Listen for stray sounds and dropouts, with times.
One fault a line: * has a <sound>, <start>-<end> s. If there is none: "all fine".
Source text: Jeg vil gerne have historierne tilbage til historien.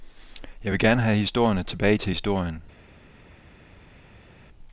all fine